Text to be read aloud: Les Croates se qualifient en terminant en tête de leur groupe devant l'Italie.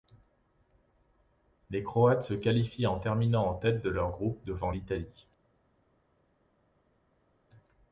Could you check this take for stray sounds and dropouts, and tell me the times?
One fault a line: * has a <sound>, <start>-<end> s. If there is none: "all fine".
all fine